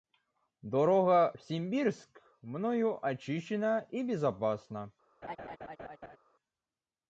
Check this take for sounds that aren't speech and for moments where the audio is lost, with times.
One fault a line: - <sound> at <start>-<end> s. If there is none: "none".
- laugh at 5.2-6.2 s